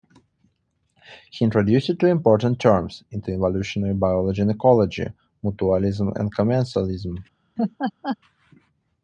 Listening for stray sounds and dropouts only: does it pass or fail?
fail